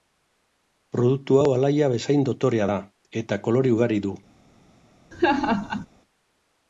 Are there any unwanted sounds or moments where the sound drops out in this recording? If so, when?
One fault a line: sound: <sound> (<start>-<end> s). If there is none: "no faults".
sound: laugh (5.1-5.9 s)